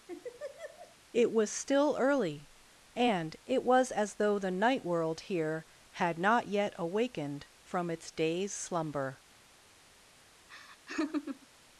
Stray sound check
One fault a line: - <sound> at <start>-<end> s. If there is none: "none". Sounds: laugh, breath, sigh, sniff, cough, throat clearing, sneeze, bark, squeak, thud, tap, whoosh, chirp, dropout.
- laugh at 0.1-1.0 s
- laugh at 10.5-11.5 s